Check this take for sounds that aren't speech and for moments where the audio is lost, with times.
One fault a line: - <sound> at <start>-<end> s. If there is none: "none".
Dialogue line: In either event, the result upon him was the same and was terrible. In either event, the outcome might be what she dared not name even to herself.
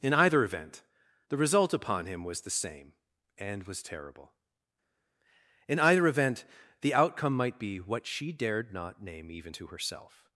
none